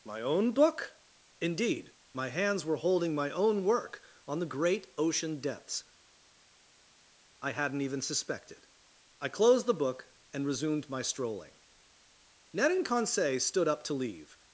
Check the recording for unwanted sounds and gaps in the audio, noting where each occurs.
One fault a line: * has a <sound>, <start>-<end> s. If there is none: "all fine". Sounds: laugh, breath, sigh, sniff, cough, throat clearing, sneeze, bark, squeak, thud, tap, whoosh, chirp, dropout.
all fine